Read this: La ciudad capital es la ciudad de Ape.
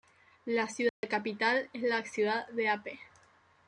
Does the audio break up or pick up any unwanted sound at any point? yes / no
yes